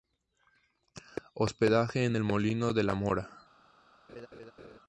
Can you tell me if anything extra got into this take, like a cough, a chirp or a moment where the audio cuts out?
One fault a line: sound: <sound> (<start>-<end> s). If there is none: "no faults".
sound: laugh (4.1-4.8 s)